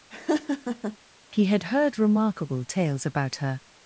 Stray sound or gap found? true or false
true